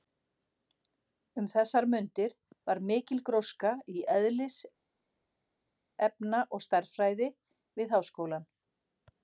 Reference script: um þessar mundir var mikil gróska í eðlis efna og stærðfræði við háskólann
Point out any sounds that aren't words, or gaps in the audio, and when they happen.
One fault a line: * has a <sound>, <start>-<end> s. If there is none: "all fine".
all fine